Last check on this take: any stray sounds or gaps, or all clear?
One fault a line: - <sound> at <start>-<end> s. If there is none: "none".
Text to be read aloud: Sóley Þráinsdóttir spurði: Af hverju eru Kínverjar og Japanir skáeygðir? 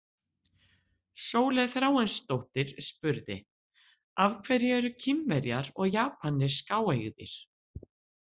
none